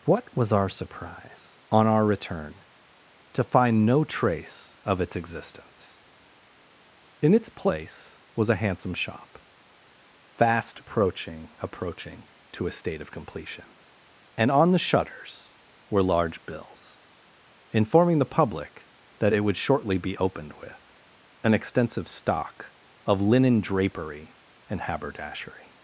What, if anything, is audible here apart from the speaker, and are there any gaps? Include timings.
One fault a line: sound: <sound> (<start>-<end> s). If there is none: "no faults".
no faults